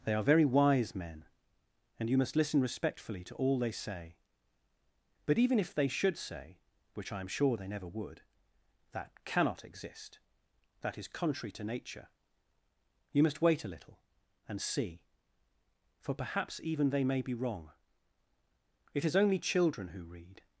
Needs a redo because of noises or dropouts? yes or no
no